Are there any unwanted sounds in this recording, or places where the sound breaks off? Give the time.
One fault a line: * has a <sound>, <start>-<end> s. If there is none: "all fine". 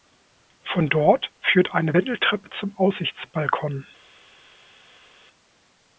all fine